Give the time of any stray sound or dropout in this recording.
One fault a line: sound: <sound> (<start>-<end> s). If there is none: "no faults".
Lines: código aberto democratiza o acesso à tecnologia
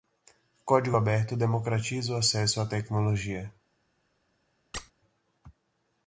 sound: squeak (4.7-4.9 s)